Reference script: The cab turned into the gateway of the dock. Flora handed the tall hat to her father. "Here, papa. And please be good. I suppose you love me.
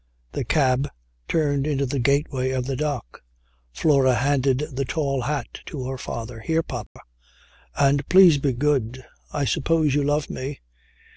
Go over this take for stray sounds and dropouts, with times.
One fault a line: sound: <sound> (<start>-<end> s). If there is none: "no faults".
sound: dropout (6.9-7.0 s)